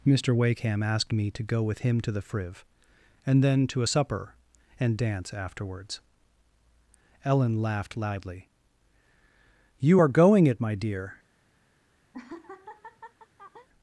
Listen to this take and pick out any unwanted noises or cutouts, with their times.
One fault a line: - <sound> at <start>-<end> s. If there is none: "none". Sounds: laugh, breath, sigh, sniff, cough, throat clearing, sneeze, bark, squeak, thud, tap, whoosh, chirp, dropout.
- laugh at 12.1-13.7 s